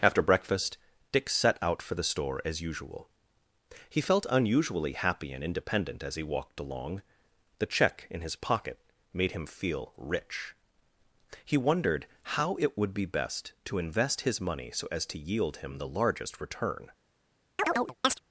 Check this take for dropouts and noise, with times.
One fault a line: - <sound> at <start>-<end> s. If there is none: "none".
- chirp at 17.6-18.2 s